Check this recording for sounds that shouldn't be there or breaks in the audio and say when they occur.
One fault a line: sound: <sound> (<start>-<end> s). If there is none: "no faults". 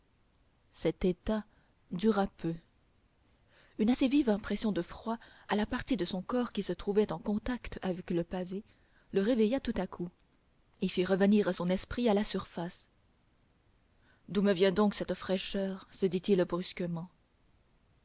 no faults